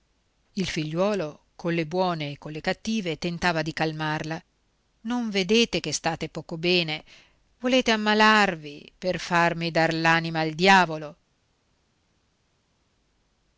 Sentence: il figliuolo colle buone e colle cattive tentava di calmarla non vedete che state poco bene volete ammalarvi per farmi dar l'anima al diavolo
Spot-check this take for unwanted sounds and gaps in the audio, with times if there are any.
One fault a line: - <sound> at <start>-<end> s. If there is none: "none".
none